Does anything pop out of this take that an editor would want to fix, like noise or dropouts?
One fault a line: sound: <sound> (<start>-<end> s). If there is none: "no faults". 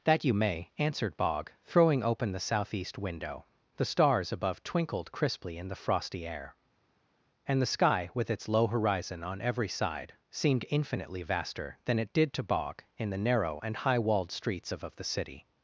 no faults